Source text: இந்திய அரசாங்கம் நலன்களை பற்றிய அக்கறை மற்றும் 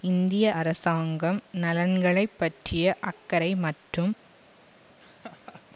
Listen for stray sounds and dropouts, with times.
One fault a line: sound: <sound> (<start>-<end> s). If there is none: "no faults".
sound: laugh (5.0-5.6 s)